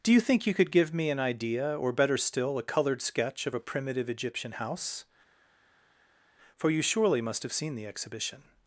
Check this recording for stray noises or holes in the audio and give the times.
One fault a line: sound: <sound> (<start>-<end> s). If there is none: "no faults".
no faults